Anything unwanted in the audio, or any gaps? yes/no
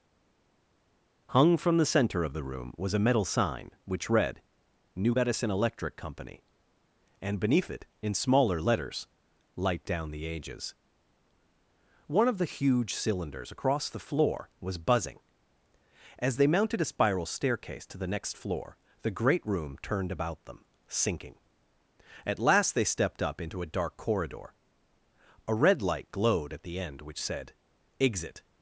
no